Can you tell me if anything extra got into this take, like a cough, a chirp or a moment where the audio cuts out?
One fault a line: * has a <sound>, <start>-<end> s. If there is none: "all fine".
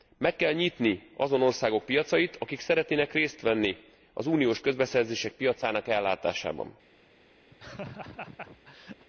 * has a laugh, 7.5-9.0 s